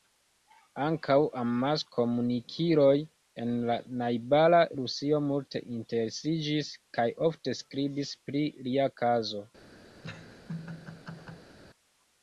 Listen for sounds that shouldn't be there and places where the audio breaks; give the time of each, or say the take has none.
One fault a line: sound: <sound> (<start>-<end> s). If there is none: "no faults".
sound: laugh (10.0-11.5 s)